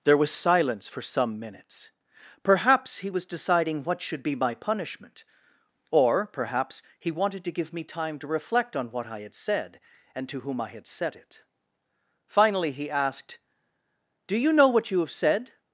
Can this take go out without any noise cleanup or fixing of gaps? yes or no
yes